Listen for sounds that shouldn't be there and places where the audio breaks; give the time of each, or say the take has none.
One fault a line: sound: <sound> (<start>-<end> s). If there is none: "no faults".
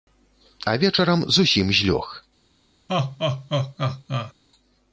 sound: laugh (2.9-4.3 s)